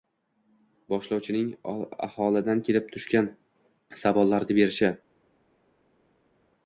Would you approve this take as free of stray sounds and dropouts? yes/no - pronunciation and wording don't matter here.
yes